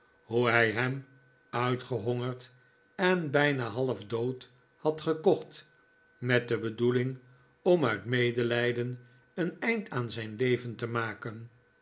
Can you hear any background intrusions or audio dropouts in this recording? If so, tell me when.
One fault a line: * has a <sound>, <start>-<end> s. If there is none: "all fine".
all fine